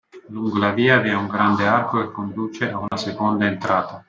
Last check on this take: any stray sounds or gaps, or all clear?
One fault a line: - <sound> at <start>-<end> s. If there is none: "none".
- dropout at 2.9-2.9 s